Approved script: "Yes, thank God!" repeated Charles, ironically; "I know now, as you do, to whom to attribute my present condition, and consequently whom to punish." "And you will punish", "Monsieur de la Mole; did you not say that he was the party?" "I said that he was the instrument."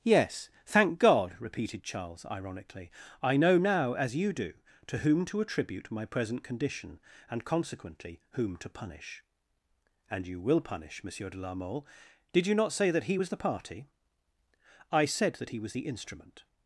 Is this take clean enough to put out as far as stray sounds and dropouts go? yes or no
yes